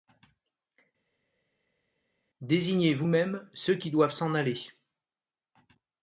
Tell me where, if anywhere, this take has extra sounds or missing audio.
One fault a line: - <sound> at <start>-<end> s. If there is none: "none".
none